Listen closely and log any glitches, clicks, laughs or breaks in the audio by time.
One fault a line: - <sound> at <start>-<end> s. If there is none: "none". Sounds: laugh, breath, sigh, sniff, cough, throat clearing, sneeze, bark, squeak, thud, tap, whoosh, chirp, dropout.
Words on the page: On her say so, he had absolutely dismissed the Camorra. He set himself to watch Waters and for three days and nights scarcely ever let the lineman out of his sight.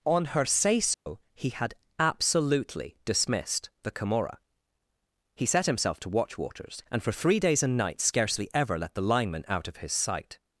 - dropout at 0.9-1.1 s